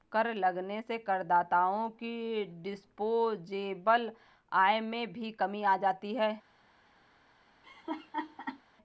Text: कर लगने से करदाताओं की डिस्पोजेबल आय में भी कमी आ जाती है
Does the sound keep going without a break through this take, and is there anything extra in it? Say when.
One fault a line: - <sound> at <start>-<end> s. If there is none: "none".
- laugh at 7.6-8.6 s